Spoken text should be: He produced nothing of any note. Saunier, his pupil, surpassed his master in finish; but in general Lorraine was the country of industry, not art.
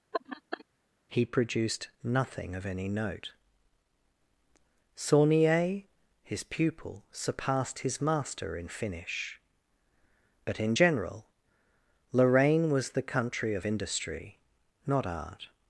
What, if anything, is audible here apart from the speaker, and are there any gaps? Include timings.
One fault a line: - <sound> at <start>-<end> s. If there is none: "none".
- laugh at 0.1-0.6 s